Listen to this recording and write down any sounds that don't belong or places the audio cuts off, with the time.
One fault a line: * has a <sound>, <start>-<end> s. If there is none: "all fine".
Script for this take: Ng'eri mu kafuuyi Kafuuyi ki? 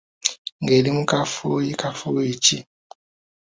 all fine